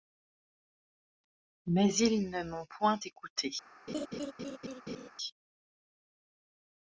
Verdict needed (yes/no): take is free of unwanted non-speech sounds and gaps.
no